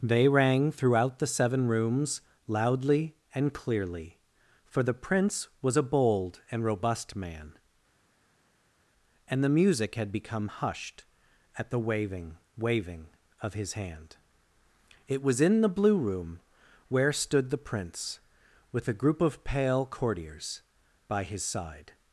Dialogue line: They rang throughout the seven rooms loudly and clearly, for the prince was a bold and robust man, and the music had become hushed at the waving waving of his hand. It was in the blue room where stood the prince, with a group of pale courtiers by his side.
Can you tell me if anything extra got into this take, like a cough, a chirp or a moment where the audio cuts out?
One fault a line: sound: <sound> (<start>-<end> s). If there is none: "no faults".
no faults